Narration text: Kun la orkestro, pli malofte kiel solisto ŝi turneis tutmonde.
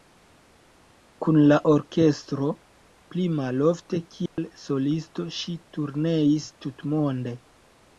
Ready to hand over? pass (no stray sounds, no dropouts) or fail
fail